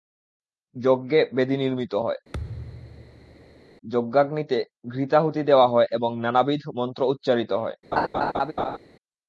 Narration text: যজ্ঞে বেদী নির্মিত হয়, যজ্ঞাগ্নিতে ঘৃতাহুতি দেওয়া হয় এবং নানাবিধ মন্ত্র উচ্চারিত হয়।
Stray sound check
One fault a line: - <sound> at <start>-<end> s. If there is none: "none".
- thud at 2.3-3.6 s
- laugh at 7.9-8.8 s